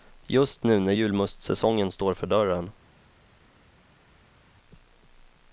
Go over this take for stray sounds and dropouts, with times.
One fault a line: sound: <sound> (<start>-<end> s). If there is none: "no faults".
no faults